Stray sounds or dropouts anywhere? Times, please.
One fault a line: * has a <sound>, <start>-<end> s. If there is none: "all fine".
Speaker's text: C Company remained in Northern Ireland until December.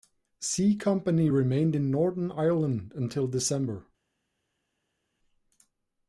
all fine